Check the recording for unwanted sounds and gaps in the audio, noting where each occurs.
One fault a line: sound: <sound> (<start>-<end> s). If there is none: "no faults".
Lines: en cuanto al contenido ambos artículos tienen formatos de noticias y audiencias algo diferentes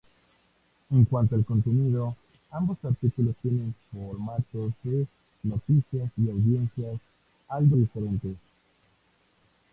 no faults